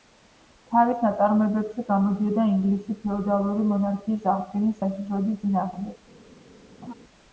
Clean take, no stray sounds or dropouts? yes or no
no